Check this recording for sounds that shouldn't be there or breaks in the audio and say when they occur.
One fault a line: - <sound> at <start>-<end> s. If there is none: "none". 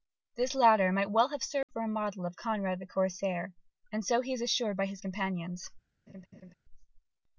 - dropout at 1.6-1.7 s
- laugh at 6.1-6.5 s